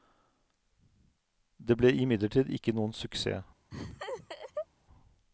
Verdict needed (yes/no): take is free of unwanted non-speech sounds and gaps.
no